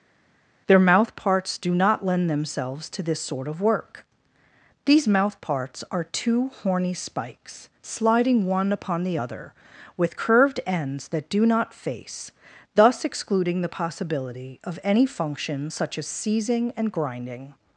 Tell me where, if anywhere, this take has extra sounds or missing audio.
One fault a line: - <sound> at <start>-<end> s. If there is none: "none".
none